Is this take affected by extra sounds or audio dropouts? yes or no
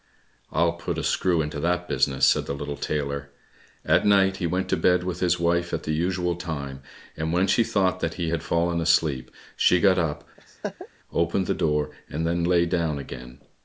yes